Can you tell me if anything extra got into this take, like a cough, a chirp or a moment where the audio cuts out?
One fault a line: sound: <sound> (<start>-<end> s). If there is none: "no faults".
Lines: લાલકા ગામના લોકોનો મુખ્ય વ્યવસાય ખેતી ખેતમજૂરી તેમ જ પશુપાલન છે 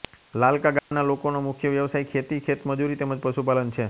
sound: dropout (0.8-0.9 s)